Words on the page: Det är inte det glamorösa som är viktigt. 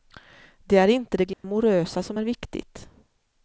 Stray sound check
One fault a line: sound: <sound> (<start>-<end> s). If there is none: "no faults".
sound: dropout (1.3-1.4 s)